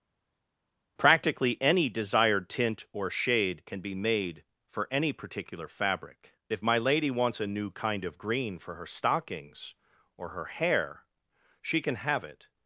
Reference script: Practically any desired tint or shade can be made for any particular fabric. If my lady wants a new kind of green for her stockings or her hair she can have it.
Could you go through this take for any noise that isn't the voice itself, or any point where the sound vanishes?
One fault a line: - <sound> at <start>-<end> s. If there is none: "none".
none